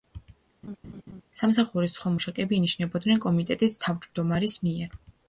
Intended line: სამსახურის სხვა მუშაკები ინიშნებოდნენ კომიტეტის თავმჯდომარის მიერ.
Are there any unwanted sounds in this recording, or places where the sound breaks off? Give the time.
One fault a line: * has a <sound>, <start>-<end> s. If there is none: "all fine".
* has a laugh, 0.6-1.2 s